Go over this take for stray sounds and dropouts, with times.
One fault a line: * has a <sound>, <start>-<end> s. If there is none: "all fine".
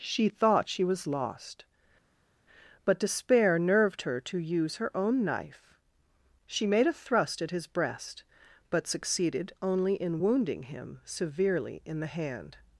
all fine